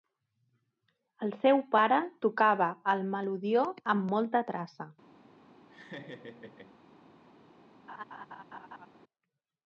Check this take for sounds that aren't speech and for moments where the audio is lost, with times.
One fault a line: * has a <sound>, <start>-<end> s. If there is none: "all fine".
* has a laugh, 5.7-6.8 s
* has a laugh, 7.9-8.9 s